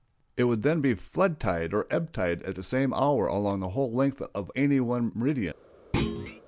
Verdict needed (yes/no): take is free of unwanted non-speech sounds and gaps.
no